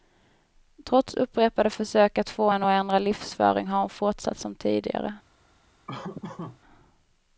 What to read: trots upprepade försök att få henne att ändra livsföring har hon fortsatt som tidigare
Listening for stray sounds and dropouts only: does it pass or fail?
fail